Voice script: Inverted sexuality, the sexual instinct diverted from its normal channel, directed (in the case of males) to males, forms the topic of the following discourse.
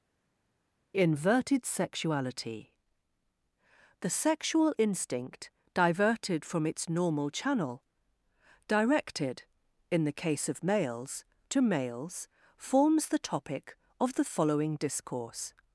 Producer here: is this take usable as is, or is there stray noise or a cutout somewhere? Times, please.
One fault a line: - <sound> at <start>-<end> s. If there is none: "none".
none